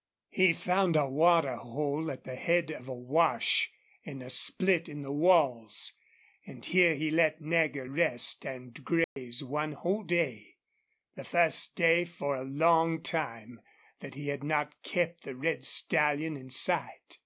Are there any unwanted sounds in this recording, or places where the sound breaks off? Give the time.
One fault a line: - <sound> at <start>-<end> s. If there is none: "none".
- dropout at 9.0-9.2 s